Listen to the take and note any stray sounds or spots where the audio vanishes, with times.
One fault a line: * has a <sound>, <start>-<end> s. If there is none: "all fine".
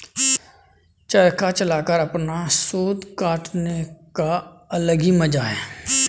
all fine